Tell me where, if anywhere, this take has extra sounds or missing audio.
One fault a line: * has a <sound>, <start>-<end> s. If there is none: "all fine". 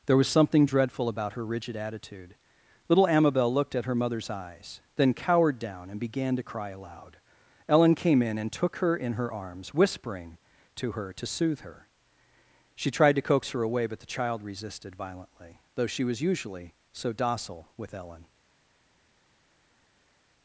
all fine